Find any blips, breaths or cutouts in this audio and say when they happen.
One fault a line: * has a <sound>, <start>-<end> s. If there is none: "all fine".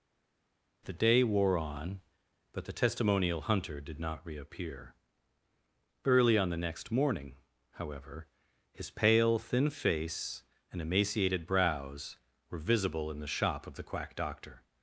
all fine